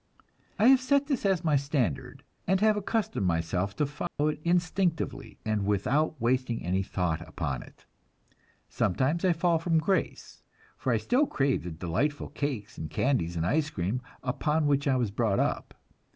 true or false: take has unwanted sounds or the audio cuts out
true